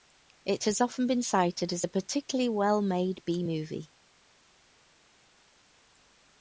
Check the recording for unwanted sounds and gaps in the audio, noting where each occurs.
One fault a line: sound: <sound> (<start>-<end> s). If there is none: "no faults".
no faults